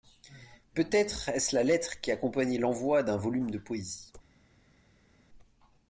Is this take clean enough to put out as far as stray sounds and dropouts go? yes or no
yes